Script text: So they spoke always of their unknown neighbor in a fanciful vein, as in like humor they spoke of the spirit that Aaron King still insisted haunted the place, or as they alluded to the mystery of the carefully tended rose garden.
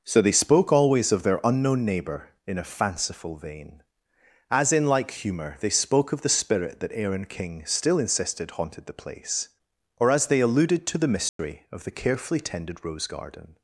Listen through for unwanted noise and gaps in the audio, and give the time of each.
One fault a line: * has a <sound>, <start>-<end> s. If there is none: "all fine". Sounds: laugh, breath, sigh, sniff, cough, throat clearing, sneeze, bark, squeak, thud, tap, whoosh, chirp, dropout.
* has a dropout, 11.3-11.4 s